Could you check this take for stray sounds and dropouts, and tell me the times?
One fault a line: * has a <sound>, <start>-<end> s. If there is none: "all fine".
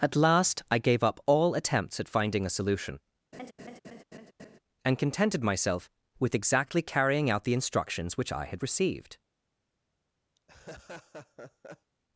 * has a laugh, 3.3-4.6 s
* has a laugh, 10.4-11.9 s